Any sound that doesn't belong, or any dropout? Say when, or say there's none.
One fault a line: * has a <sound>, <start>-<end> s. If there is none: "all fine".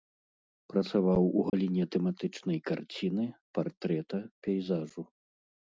* has a dropout, 1.5-1.5 s